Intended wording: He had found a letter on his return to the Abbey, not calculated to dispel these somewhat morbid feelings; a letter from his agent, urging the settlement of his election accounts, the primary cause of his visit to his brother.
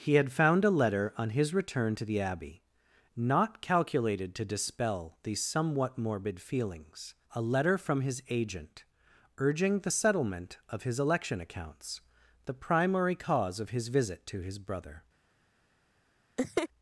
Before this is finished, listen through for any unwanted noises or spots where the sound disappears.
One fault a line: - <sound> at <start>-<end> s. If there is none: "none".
- laugh at 16.4-16.7 s